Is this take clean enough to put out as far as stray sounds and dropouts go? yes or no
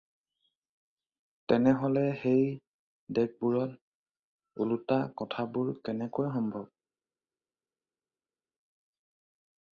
yes